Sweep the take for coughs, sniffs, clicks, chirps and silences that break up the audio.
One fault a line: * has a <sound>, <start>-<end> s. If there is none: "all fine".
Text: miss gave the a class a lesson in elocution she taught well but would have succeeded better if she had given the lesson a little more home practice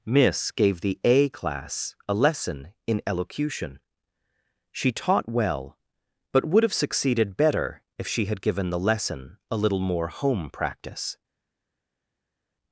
all fine